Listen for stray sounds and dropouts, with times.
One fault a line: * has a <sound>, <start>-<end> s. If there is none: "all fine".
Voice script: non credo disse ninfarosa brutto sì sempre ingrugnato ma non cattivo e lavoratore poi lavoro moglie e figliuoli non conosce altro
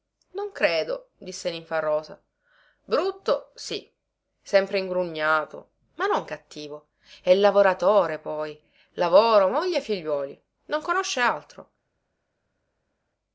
all fine